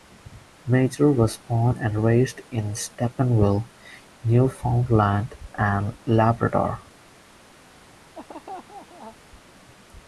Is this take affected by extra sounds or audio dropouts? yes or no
yes